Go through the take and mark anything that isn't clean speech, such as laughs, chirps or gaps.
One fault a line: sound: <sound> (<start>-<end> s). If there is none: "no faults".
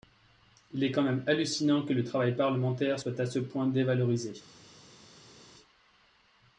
no faults